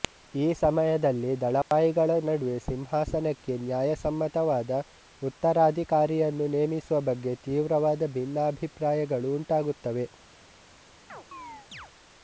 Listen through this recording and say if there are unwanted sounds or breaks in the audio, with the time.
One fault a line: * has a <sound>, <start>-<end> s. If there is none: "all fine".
* has a dropout, 1.6-1.7 s
* has a chirp, 11.1-11.9 s